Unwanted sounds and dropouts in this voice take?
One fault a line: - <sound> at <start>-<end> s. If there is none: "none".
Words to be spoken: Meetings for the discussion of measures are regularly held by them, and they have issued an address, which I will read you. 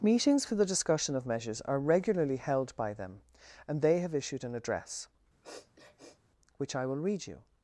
- sniff at 5.4-6.2 s